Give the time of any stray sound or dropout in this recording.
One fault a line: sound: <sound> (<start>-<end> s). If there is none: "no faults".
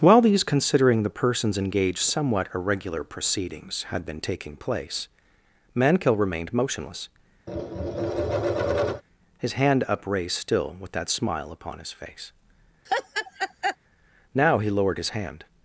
sound: tap (7.5-9.0 s)
sound: laugh (12.9-13.8 s)